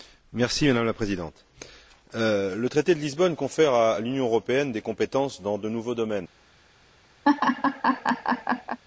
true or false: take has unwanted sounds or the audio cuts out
true